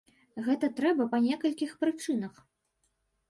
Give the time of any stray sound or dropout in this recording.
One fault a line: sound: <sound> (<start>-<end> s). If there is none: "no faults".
no faults